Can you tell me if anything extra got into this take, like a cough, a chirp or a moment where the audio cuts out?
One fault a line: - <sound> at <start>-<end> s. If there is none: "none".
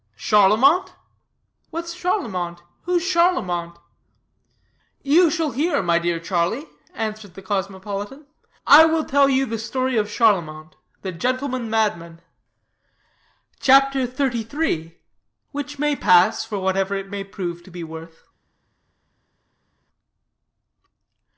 none